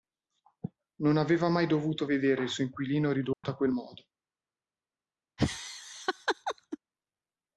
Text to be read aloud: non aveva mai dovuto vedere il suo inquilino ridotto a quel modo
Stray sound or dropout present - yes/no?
yes